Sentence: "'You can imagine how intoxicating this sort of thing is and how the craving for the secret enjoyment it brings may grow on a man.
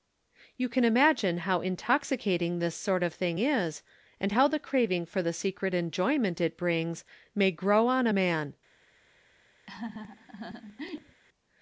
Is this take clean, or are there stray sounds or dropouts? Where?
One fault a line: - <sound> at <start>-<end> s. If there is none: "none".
- laugh at 9.7-11.2 s